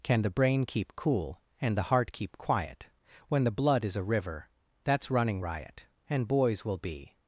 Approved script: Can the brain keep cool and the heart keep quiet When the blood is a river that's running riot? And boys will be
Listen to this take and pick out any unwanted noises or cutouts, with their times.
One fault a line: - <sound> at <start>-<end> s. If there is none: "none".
none